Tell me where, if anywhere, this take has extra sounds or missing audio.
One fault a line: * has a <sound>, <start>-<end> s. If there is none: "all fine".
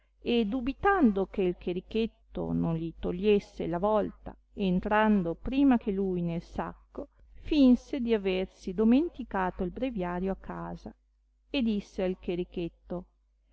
all fine